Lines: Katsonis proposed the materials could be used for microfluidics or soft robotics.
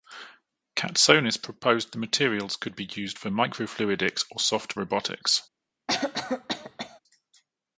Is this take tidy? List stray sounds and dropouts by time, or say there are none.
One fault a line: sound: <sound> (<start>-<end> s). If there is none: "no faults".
sound: cough (5.9-7.0 s)